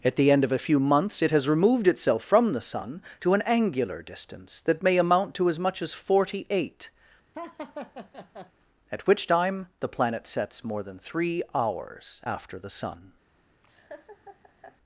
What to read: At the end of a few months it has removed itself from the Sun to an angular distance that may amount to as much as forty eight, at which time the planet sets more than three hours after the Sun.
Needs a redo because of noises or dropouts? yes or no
yes